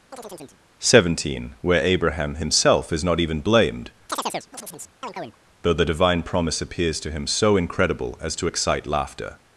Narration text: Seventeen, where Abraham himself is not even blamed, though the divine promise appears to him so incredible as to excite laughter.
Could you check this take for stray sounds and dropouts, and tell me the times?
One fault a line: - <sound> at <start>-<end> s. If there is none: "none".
- chirp at 0.1-0.6 s
- chirp at 4.1-5.4 s